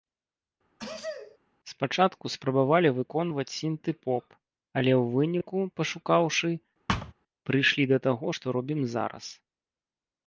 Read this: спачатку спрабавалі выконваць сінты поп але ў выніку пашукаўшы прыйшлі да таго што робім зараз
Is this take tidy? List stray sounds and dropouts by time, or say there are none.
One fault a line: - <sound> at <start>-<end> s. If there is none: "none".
- sneeze at 0.8-1.4 s
- thud at 6.9-7.1 s